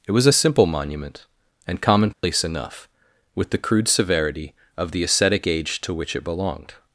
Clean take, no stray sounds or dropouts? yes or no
no